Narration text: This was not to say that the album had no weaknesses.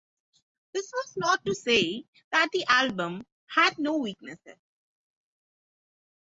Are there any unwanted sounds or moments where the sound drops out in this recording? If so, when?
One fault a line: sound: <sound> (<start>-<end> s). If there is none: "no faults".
no faults